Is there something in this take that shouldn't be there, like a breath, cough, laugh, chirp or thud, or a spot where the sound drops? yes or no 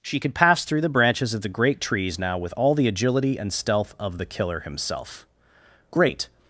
no